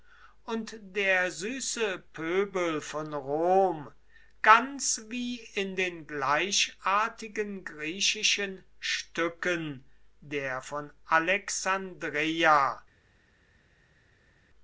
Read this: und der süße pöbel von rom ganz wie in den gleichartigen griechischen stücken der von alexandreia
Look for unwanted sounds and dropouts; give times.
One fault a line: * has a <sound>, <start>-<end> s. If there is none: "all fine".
all fine